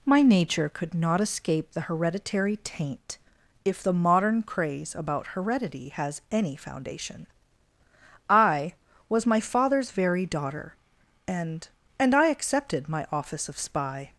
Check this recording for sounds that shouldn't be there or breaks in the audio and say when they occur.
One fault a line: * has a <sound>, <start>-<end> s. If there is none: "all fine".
all fine